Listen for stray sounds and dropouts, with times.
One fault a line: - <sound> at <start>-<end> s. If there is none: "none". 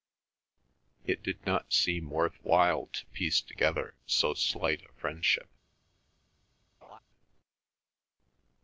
- laugh at 6.8-7.0 s